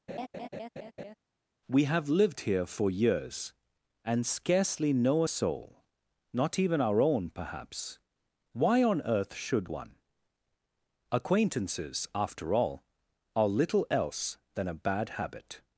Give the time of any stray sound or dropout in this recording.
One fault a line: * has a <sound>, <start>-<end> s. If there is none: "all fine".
* has a laugh, 0.1-1.2 s